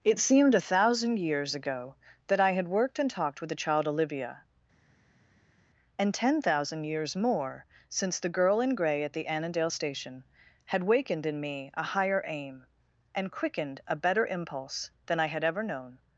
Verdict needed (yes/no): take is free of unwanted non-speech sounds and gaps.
yes